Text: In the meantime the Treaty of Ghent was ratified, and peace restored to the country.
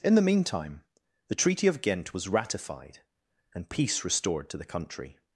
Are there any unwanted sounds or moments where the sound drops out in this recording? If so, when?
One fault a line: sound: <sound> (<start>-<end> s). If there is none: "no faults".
no faults